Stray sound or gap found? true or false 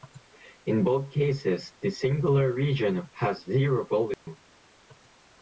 true